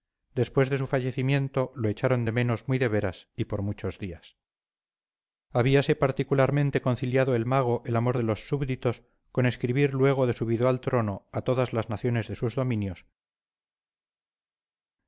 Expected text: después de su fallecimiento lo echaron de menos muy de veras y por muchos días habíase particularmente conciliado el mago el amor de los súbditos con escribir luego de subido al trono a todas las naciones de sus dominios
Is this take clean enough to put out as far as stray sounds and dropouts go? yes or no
yes